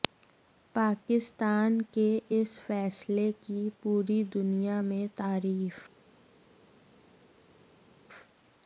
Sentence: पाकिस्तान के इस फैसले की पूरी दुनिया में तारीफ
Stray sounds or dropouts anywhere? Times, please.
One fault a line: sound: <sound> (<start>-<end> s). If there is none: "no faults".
no faults